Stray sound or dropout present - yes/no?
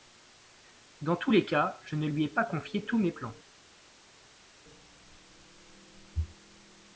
no